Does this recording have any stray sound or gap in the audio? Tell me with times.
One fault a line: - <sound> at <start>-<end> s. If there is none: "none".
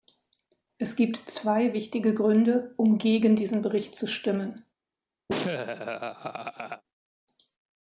- laugh at 5.3-6.8 s